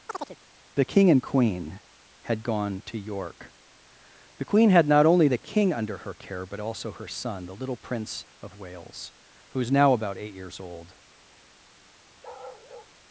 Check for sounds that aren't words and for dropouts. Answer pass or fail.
fail